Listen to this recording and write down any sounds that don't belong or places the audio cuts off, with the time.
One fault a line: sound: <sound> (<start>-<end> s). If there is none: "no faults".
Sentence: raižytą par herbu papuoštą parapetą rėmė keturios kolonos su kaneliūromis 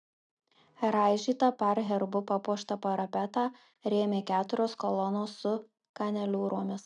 no faults